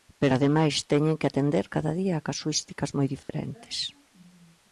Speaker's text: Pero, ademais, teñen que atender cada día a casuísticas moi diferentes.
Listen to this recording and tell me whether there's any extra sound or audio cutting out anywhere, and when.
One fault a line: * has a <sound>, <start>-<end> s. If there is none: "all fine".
* has a dropout, 3.2-3.3 s